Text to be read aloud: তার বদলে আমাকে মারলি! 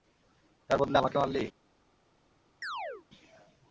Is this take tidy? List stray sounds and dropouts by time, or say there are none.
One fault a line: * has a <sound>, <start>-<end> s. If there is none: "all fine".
* has a chirp, 2.6-3.0 s